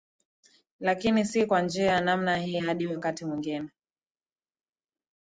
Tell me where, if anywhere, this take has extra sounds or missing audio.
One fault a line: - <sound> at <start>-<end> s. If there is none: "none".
none